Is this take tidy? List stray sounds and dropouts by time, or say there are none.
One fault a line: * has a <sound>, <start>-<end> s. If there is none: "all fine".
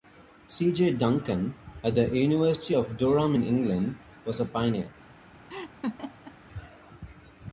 * has a laugh, 5.5-6.4 s